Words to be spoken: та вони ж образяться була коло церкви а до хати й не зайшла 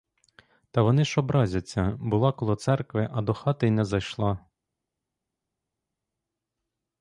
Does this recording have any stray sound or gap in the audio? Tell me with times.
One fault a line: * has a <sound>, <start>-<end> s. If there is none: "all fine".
all fine